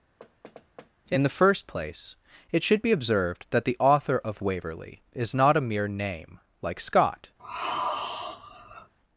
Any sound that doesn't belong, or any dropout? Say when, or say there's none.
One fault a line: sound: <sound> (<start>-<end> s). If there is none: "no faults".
sound: thud (0.2-0.9 s)
sound: sigh (7.4-8.9 s)